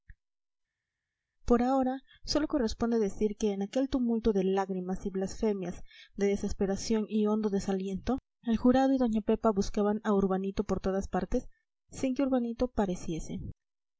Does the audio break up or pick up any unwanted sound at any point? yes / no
no